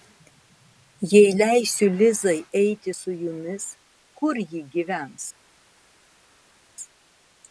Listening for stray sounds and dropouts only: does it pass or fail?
pass